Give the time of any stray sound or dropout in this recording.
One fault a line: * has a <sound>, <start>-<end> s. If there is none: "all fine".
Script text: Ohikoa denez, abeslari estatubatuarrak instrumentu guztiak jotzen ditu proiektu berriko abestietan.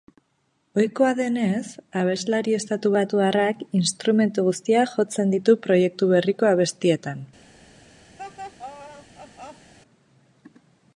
* has a laugh, 8.2-9.7 s